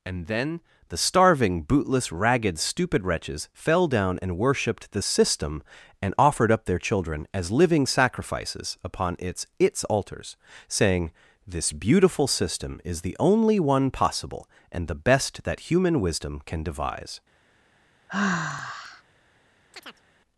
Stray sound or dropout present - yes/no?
yes